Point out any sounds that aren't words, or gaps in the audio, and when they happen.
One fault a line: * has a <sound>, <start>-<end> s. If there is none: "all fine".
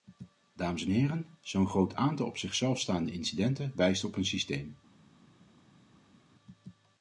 all fine